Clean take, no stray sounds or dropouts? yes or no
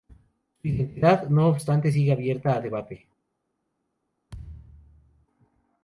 no